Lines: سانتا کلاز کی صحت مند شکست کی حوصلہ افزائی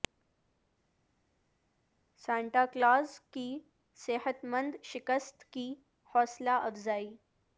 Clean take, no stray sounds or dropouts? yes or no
yes